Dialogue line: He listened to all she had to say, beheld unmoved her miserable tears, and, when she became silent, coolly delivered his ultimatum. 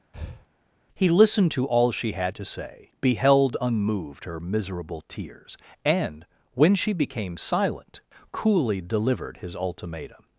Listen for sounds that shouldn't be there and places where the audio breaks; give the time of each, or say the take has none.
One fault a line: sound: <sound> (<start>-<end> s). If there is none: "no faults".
sound: breath (0.1-0.5 s)